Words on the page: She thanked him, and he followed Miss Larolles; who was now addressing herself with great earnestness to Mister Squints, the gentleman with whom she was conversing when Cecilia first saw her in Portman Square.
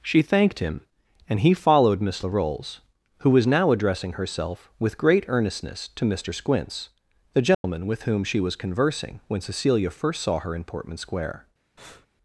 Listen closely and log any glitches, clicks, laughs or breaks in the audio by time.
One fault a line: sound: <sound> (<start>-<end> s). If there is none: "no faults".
sound: dropout (7.5-7.6 s)
sound: breath (11.8-12.1 s)